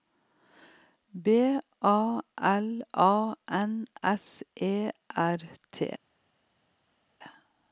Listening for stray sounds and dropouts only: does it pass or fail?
pass